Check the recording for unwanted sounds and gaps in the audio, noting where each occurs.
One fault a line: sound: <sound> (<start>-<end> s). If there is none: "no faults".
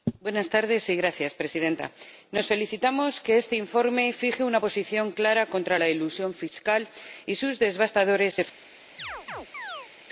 sound: chirp (9.0-9.9 s)